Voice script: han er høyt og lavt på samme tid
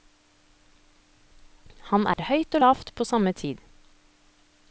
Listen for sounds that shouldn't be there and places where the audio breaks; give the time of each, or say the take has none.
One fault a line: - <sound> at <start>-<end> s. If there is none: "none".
- dropout at 2.1-2.2 s